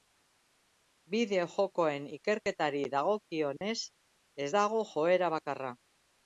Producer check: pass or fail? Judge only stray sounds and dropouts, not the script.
fail